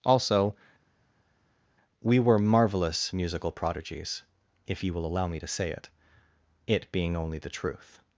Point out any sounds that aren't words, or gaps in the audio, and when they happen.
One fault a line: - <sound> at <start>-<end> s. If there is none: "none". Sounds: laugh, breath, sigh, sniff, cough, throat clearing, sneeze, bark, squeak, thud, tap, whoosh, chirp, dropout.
none